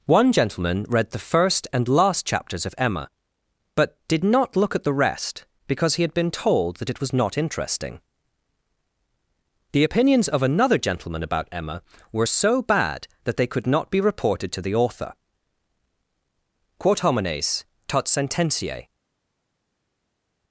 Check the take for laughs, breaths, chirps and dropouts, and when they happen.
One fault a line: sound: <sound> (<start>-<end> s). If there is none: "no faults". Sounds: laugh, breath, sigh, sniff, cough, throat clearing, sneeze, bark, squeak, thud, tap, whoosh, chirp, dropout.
no faults